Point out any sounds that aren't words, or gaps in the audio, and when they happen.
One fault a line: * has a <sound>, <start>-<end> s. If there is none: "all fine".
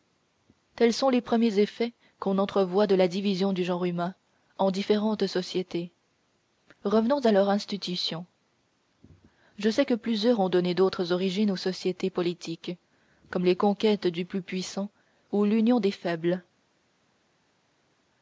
all fine